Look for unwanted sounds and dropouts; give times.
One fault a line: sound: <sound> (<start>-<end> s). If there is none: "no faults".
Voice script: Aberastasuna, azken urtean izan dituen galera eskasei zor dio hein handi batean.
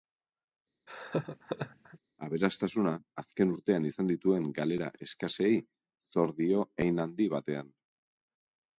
sound: laugh (0.9-2.0 s)